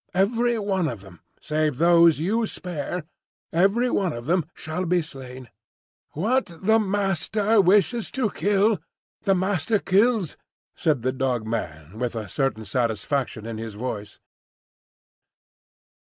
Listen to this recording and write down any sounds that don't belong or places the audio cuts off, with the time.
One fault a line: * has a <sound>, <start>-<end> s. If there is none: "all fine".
all fine